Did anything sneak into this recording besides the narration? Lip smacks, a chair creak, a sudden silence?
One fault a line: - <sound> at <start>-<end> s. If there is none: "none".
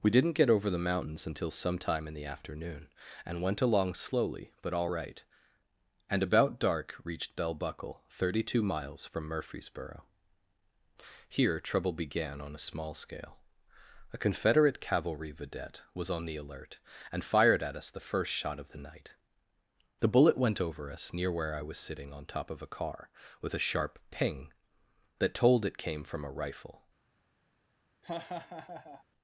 - laugh at 28.0-29.0 s